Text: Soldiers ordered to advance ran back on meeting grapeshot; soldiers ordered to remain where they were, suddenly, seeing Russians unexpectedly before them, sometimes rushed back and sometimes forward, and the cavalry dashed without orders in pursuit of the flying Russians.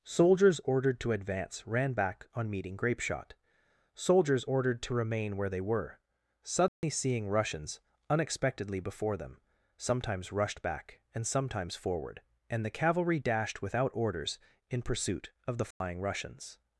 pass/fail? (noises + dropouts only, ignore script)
fail